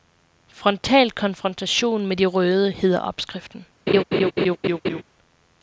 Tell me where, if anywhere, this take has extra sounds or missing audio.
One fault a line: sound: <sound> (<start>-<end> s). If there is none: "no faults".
sound: laugh (3.9-5.0 s)